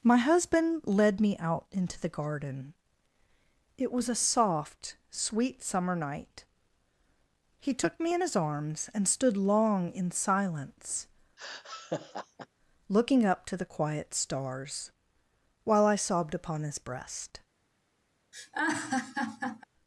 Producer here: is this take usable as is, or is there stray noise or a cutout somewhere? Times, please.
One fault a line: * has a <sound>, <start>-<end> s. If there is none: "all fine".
* has a laugh, 11.4-12.5 s
* has a laugh, 18.3-19.6 s